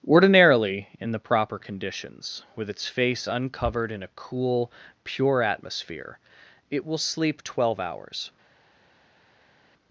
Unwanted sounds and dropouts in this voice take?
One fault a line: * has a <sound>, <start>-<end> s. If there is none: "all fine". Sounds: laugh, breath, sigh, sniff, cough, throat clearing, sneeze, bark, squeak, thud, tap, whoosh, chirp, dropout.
all fine